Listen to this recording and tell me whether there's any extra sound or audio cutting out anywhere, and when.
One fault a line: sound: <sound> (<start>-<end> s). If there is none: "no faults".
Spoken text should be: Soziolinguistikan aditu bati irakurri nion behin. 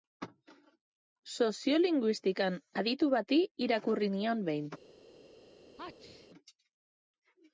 sound: sneeze (5.8-6.3 s)